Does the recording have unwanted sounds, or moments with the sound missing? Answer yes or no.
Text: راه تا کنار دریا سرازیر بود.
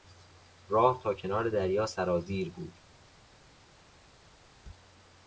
no